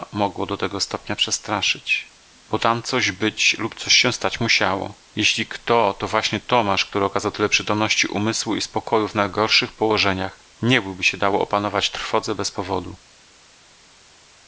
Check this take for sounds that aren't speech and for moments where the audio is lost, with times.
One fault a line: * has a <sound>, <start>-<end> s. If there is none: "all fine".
all fine